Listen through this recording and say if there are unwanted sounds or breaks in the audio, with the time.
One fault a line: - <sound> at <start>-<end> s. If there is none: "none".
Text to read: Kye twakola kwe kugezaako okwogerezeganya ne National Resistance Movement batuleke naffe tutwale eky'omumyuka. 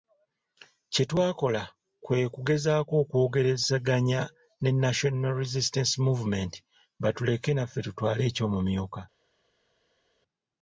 none